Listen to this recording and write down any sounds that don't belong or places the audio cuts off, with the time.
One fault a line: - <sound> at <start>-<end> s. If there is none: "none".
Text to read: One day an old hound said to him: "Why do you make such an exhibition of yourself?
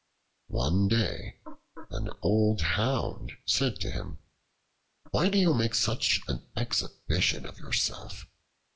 none